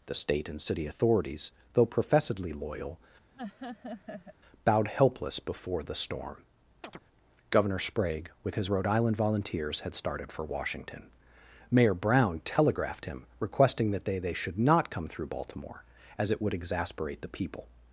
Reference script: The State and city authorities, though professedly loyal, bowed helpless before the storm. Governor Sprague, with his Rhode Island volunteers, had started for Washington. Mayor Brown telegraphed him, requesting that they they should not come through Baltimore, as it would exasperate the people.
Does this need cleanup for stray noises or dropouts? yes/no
yes